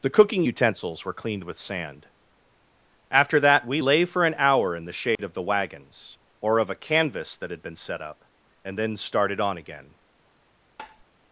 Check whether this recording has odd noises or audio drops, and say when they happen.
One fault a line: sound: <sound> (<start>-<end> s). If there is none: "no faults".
sound: dropout (5.2-5.2 s)
sound: tap (10.8-11.0 s)